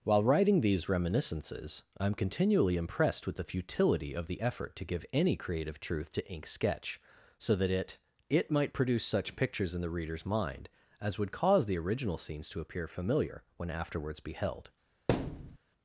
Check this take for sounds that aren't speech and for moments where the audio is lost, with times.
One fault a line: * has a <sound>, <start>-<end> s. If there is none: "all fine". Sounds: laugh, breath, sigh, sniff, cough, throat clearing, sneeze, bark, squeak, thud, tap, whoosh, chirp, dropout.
* has a thud, 15.1-15.6 s